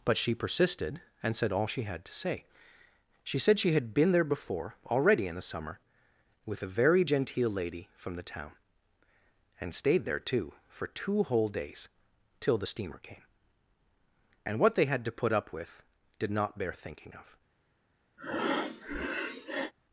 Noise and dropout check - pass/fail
fail